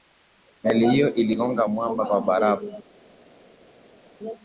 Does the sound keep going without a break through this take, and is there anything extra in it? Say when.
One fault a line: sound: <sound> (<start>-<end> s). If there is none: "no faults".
no faults